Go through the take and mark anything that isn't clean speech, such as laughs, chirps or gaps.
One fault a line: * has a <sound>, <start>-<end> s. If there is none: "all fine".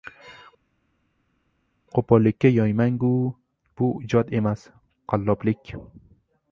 all fine